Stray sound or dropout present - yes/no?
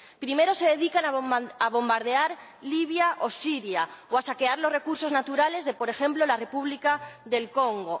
no